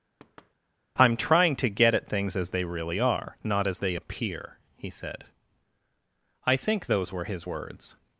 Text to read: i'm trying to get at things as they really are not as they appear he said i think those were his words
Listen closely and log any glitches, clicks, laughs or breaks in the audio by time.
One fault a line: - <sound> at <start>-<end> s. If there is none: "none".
- thud at 0.2-0.5 s